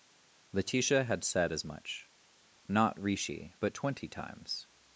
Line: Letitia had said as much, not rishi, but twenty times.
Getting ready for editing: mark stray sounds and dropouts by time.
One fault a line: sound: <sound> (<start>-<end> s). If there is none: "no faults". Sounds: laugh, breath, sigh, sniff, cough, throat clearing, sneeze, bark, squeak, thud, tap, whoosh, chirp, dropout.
no faults